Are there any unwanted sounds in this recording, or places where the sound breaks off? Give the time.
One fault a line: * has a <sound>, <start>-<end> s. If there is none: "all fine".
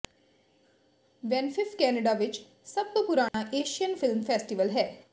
* has a dropout, 3.3-3.3 s